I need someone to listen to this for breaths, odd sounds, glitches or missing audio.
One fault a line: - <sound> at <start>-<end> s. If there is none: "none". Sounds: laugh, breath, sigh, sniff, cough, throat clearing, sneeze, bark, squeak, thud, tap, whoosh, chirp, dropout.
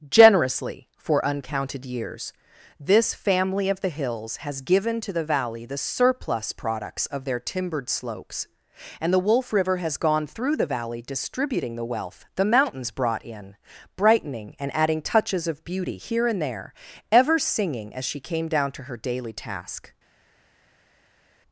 none